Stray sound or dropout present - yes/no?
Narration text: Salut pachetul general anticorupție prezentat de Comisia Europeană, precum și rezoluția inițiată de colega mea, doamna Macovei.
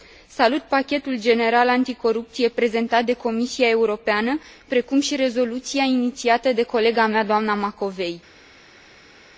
no